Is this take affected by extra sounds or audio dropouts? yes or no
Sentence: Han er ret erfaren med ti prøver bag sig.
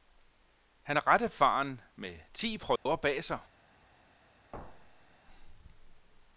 yes